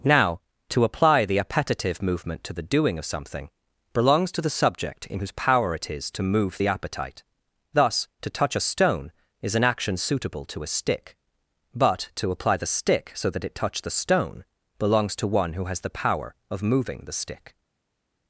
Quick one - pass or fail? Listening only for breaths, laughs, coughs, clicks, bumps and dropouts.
pass